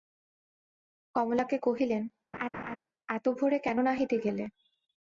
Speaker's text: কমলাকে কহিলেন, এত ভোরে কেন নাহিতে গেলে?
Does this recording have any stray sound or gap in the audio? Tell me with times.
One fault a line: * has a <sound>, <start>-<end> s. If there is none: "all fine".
* has a laugh, 2.3-2.8 s